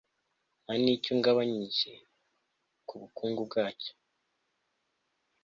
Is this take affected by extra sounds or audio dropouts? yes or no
no